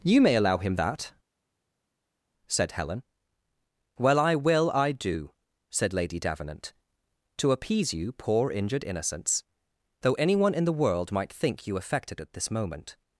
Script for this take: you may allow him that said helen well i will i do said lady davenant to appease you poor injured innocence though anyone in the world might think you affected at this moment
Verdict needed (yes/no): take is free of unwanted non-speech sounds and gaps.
yes